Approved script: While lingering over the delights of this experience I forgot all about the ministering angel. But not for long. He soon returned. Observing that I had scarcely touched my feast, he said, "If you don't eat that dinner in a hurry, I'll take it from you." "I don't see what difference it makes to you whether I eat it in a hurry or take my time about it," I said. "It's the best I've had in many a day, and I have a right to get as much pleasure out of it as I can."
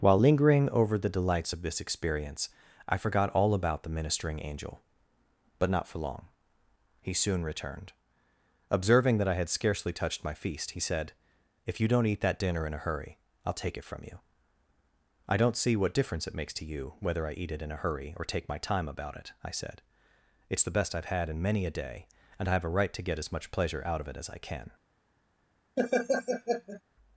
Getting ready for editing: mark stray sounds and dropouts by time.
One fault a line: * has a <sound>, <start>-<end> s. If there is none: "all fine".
* has a laugh, 25.8-26.8 s